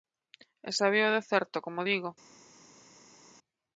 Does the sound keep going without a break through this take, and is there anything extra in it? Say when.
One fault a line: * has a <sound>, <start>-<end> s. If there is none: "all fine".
all fine